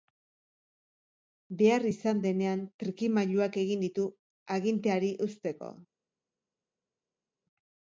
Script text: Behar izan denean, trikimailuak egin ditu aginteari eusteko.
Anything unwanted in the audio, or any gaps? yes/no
no